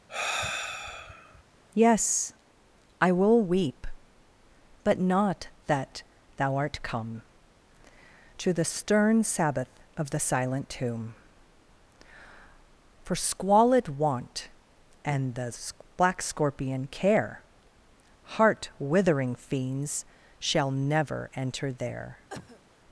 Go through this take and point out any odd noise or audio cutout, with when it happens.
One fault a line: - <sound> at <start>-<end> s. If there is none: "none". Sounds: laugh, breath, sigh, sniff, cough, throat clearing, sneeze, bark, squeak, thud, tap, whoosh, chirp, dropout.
- sigh at 0.1-1.4 s
- cough at 22.3-22.6 s